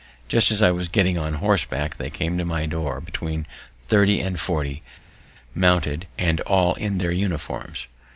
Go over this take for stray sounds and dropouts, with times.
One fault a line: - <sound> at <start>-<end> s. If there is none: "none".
none